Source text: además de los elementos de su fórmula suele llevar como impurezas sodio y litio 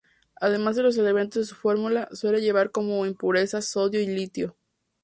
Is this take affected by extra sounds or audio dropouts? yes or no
no